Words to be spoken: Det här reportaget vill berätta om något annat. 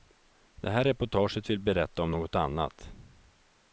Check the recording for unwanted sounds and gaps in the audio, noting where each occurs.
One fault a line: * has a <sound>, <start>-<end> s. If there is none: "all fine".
all fine